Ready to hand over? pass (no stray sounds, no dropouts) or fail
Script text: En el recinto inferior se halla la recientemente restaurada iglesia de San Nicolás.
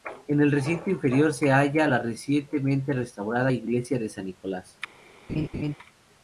fail